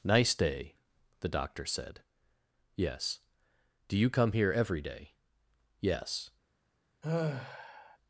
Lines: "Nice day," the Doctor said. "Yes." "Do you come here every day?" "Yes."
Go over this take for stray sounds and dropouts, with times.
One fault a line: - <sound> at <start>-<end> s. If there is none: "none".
- sigh at 7.0-8.0 s